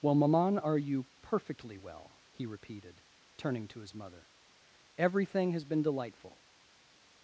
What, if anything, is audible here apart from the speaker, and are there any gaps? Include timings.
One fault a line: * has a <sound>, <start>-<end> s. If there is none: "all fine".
all fine